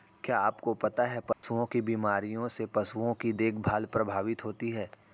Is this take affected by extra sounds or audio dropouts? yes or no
yes